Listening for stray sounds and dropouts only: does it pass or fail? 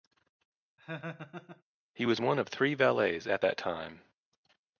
fail